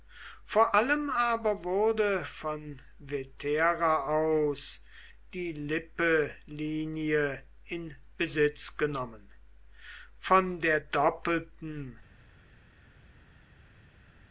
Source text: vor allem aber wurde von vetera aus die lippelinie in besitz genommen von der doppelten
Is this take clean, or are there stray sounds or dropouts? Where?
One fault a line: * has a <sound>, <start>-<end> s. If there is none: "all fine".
all fine